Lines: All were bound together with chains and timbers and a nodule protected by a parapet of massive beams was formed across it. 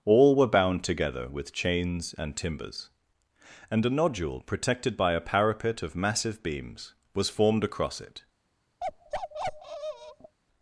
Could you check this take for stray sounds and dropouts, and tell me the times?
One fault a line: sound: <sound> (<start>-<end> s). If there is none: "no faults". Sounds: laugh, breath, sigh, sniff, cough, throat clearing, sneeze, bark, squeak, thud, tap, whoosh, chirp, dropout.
sound: bark (8.8-10.4 s)